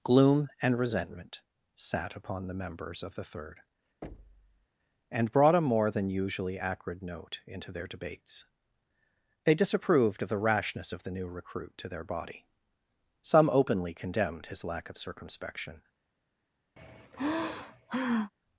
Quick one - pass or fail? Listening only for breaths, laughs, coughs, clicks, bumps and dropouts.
fail